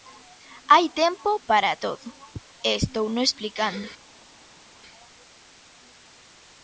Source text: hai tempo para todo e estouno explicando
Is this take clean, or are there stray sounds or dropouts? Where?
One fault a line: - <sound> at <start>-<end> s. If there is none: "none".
none